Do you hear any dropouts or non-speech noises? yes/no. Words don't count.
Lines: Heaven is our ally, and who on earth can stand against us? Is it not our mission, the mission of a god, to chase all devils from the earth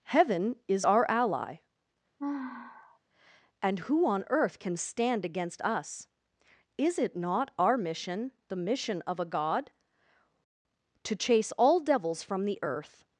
yes